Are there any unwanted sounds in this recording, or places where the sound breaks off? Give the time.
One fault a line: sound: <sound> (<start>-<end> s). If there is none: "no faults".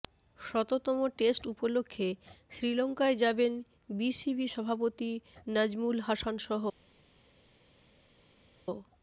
no faults